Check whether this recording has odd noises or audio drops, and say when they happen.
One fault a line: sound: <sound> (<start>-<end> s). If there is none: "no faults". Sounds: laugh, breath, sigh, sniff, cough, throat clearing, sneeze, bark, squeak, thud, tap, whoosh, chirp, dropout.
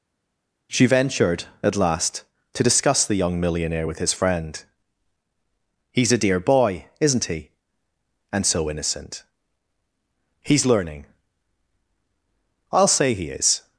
no faults